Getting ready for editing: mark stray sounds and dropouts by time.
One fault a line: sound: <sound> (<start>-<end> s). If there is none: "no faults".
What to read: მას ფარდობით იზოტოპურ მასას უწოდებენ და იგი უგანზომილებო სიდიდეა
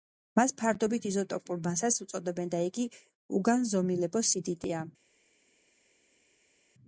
no faults